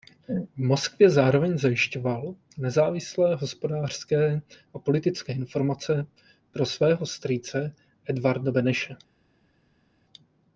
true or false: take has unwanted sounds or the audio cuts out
false